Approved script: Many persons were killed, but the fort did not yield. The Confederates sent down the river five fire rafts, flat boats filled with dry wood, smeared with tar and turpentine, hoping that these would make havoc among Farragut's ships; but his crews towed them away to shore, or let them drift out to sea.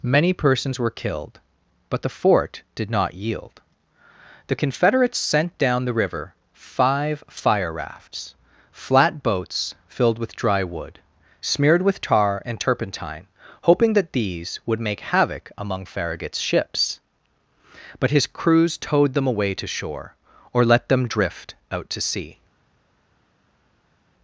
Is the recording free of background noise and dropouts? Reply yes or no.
yes